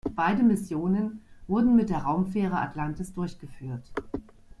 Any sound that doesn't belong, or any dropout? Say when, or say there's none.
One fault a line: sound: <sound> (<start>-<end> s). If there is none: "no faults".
no faults